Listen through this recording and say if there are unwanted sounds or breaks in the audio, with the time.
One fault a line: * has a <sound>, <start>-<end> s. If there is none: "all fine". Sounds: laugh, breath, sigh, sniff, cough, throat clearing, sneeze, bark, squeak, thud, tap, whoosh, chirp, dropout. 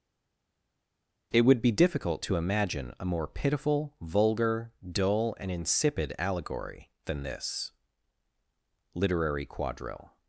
all fine